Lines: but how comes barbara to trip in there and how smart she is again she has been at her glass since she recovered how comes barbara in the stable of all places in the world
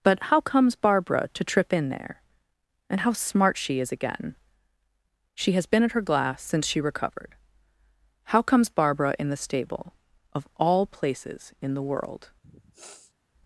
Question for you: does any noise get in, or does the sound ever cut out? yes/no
yes